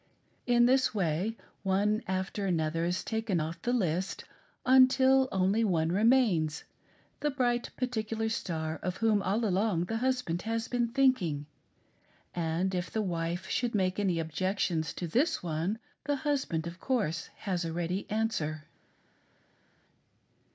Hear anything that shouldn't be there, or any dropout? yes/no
no